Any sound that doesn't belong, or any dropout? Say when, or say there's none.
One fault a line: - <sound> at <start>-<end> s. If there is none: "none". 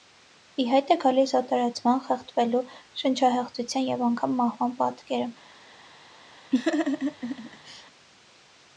- laugh at 6.5-7.9 s